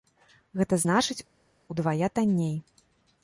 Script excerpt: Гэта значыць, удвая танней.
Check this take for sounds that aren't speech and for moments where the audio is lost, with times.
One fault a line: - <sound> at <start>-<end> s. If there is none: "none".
none